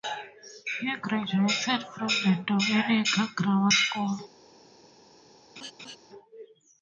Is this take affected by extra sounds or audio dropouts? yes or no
yes